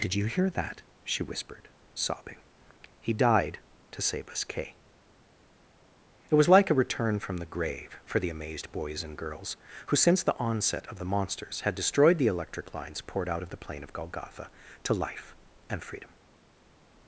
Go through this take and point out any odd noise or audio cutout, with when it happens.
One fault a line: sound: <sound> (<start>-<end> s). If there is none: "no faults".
no faults